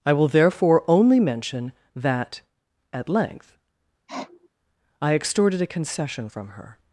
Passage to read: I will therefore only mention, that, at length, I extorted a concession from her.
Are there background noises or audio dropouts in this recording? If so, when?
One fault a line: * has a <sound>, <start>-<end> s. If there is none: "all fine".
* has a sniff, 4.1-4.5 s